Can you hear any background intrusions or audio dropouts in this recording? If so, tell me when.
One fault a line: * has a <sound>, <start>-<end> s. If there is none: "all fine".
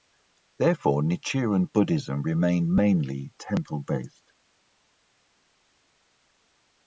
all fine